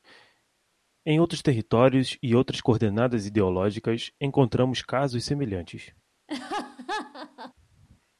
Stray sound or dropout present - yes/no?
yes